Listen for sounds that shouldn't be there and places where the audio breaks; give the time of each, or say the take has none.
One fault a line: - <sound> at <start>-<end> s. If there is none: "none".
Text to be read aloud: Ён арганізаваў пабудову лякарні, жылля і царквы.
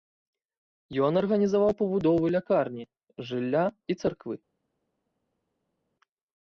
none